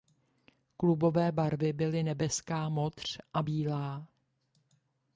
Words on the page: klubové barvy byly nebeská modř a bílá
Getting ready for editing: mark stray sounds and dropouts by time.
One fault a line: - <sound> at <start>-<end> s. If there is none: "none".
none